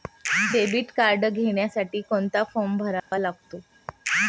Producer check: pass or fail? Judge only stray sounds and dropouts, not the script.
fail